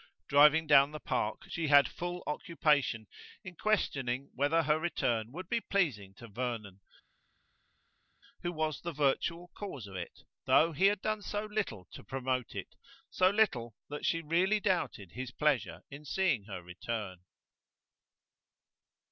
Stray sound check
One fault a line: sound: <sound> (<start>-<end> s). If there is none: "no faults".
no faults